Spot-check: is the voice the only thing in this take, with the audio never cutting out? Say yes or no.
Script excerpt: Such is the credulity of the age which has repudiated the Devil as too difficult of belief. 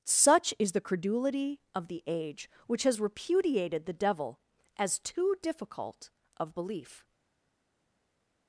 yes